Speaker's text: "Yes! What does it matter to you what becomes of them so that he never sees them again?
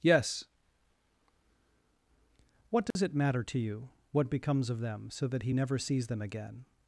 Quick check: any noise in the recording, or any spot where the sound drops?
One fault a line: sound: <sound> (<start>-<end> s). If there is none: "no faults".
sound: dropout (2.9-3.0 s)